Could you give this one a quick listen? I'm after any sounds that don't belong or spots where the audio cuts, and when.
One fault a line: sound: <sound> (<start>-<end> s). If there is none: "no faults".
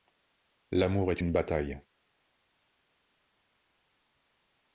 no faults